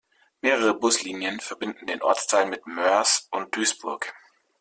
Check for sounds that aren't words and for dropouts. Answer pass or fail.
pass